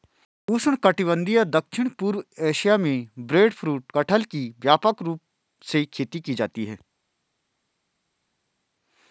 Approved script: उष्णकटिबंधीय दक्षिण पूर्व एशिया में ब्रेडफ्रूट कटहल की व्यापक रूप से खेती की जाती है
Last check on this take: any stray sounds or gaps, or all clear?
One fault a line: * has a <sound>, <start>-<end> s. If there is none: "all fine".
all fine